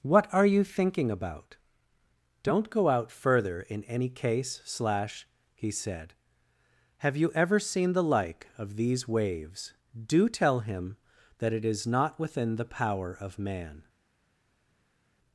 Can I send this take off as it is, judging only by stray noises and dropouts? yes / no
yes